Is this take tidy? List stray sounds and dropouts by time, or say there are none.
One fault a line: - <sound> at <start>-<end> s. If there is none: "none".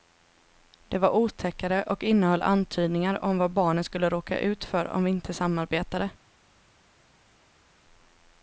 none